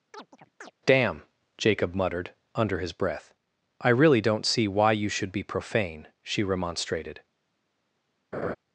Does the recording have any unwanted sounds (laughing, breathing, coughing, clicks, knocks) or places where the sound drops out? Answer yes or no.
yes